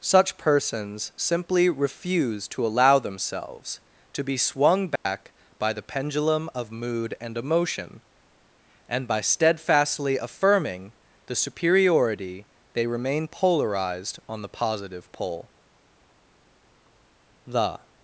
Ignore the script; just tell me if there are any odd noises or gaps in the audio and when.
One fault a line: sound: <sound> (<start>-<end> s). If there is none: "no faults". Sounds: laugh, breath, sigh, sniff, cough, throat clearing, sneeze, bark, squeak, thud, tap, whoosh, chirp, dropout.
sound: dropout (5.0-5.1 s)